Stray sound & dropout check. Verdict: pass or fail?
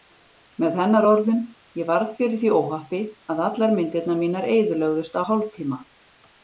pass